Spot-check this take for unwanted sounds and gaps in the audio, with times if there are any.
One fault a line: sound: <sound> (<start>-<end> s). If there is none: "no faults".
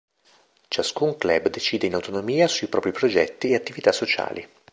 no faults